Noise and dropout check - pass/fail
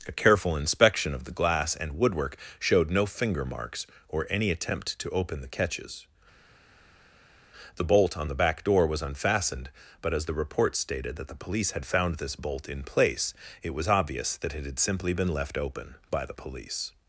pass